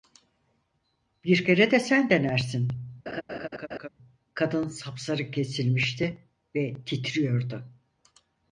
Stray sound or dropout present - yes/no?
yes